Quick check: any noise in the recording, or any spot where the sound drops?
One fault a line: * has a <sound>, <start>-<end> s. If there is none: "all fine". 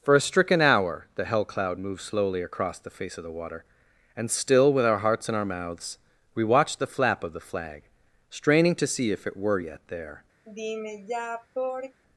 * has a sigh, 10.4-12.0 s